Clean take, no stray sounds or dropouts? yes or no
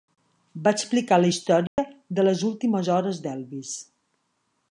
no